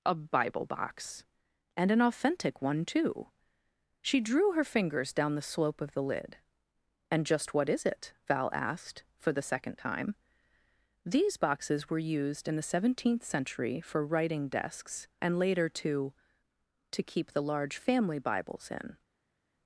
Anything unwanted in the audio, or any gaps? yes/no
no